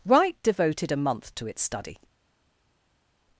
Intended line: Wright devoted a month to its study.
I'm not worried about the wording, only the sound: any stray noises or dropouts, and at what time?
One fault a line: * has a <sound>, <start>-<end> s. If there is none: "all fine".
all fine